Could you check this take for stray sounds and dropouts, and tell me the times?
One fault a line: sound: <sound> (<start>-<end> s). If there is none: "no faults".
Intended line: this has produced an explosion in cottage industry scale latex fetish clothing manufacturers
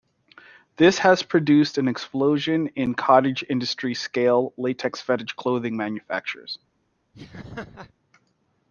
sound: laugh (7.1-7.9 s)